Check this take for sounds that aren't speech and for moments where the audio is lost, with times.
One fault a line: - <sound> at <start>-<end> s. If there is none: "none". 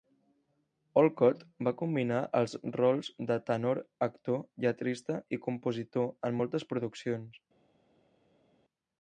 none